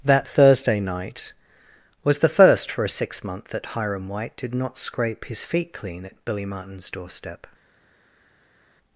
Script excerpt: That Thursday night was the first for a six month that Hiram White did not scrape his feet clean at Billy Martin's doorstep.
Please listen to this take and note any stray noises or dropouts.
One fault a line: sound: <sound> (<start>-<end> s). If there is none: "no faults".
no faults